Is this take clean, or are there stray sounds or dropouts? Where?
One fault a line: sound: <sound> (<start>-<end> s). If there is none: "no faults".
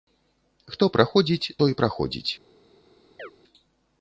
sound: chirp (3.2-3.3 s)